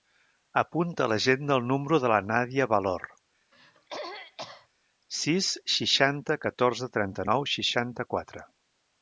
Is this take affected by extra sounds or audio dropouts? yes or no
yes